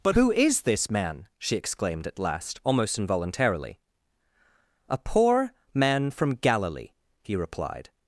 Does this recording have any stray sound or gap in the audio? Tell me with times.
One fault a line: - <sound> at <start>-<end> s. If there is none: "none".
none